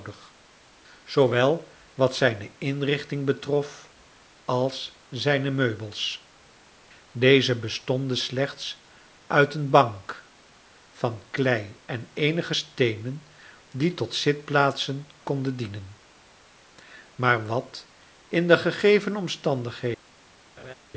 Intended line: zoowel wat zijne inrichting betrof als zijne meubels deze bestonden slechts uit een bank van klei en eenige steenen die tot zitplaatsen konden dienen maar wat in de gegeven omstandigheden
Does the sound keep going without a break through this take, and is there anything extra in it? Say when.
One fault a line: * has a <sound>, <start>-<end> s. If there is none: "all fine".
* has a laugh, 20.6-20.7 s